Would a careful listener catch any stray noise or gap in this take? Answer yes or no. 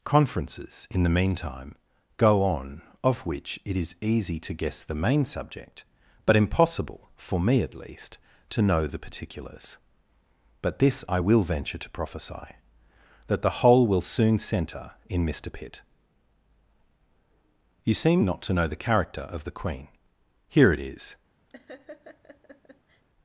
yes